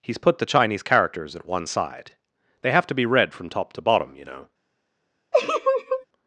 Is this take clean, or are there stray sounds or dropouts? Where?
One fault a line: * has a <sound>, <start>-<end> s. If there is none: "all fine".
* has a laugh, 5.3-6.1 s